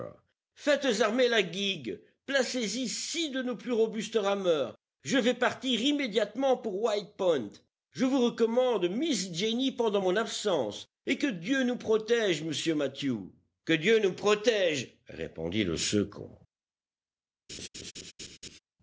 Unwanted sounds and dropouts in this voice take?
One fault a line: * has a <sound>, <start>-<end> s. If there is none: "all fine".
* has a laugh, 17.5-18.6 s